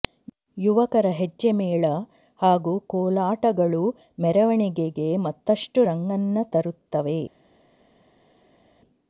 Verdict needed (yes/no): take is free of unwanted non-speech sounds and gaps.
yes